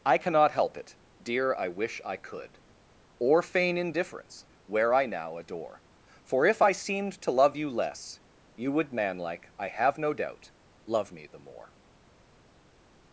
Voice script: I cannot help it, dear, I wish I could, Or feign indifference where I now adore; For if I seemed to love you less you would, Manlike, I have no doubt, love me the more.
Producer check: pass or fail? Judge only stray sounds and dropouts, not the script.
pass